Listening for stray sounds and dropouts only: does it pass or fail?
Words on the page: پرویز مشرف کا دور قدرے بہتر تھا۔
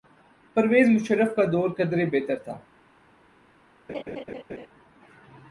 fail